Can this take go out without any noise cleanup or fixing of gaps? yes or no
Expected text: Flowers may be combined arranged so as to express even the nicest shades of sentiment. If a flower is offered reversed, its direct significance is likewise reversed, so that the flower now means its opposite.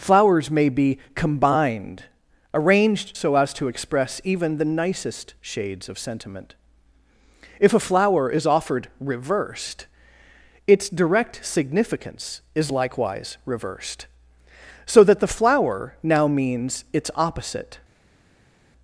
yes